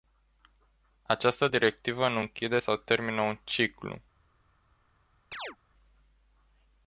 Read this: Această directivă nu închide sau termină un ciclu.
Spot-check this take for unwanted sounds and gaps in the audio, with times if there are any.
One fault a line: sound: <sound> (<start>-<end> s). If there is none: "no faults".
sound: chirp (5.3-5.6 s)